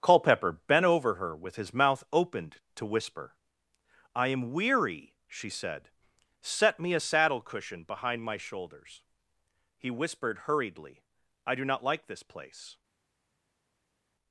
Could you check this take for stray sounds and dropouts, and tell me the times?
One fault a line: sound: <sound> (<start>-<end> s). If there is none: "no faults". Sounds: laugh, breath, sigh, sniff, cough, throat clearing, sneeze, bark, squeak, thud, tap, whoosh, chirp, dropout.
no faults